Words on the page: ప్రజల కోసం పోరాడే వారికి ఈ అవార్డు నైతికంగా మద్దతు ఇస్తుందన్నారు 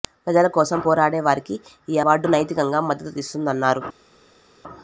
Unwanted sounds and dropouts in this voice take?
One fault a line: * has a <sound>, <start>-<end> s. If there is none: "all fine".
all fine